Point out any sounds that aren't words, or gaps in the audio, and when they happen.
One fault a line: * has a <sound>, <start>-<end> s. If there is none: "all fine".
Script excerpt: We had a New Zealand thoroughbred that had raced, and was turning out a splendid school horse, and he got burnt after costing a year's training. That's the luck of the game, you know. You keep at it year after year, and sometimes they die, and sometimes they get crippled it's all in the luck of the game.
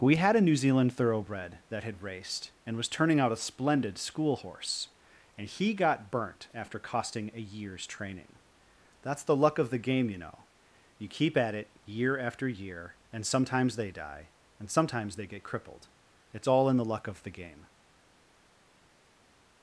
all fine